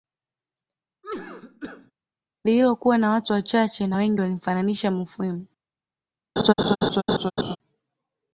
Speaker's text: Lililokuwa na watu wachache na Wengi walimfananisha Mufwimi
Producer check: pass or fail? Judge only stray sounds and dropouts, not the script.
fail